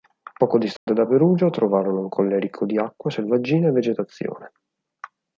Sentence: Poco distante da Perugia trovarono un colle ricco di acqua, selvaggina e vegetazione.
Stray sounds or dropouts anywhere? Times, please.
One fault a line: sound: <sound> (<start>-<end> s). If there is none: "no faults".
sound: dropout (0.8-0.9 s)